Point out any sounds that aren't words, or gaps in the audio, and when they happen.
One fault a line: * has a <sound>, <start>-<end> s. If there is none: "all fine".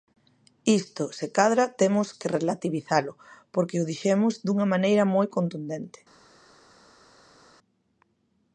all fine